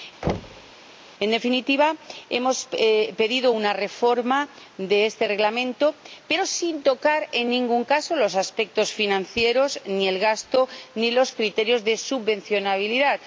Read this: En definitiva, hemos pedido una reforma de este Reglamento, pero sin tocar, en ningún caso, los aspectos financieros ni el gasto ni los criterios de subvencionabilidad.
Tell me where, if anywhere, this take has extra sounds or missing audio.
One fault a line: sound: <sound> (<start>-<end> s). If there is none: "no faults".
sound: thud (0.2-0.7 s)